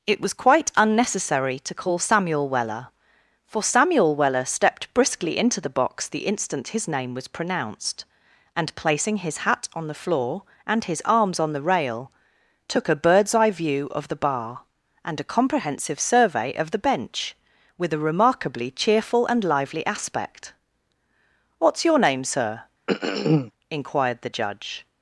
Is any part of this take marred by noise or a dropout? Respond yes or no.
yes